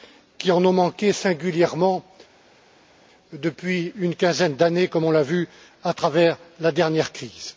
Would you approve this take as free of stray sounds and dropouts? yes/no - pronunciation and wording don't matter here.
yes